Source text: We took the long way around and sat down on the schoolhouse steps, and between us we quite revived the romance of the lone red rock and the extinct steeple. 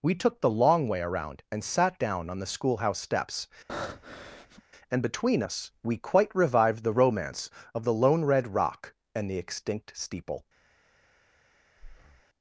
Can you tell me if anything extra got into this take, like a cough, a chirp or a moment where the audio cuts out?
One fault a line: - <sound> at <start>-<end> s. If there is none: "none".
- breath at 3.7-4.6 s
- breath at 11.8-12.2 s